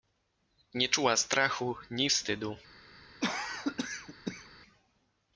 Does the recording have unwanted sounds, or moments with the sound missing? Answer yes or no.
yes